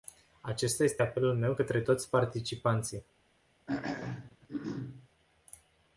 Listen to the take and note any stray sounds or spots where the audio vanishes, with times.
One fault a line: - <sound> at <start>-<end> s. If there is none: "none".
- throat clearing at 3.7-5.1 s